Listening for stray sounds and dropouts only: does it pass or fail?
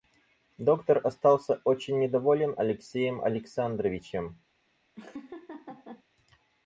fail